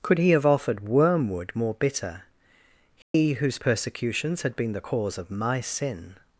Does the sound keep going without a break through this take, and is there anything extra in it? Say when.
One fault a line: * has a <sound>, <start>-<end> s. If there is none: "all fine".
* has a dropout, 3.0-3.1 s